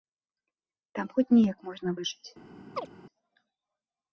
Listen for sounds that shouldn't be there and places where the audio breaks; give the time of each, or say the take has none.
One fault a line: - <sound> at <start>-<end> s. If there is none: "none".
- chirp at 2.8-2.9 s